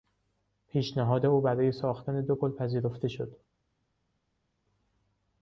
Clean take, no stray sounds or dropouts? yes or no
yes